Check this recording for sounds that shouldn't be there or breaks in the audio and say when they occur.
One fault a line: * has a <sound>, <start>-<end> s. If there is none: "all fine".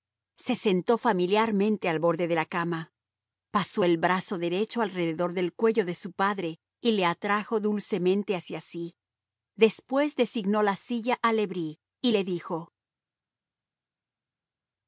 all fine